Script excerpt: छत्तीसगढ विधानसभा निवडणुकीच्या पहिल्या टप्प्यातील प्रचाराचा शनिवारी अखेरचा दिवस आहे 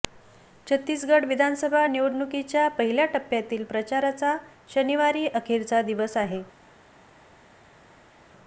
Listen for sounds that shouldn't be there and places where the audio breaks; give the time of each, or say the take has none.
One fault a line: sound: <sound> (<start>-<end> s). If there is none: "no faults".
no faults